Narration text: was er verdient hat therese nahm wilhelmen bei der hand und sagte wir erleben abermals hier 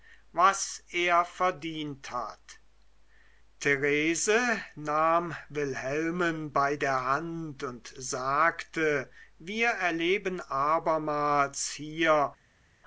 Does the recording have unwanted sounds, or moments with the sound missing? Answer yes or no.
no